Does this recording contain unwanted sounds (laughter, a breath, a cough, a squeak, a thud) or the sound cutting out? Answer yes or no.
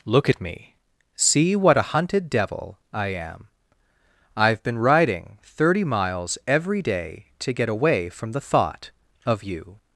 no